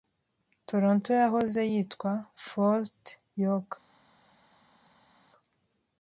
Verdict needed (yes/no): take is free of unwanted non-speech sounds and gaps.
yes